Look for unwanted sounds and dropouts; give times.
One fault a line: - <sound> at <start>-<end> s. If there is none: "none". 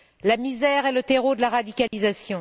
- dropout at 1.9-1.9 s